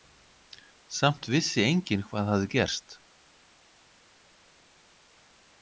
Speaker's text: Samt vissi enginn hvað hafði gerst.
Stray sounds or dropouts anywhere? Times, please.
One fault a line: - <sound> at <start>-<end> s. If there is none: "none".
none